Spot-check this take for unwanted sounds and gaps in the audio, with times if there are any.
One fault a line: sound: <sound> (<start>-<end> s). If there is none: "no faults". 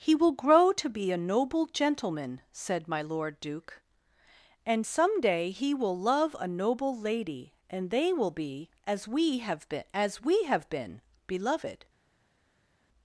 no faults